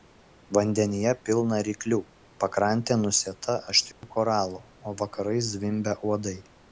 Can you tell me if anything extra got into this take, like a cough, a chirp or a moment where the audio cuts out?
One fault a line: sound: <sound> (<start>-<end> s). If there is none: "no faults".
sound: dropout (3.9-4.0 s)